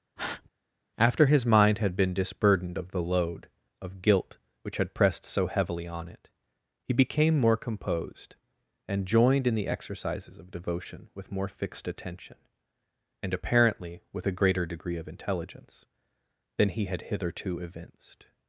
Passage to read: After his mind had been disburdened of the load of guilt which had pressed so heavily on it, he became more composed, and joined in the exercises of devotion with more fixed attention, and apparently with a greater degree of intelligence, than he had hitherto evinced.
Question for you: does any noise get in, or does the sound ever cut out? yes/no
yes